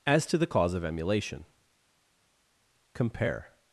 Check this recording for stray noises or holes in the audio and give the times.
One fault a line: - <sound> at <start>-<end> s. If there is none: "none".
none